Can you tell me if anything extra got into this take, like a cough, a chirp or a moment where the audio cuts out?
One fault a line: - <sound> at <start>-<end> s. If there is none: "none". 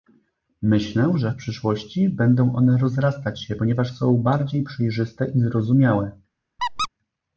- squeak at 6.6-6.9 s